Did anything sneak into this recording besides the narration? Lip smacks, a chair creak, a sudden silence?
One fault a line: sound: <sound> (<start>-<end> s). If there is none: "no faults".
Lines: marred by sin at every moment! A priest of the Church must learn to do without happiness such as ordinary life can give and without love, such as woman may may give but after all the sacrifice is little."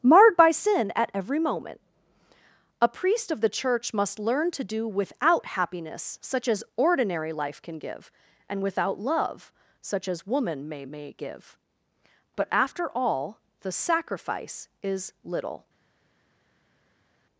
no faults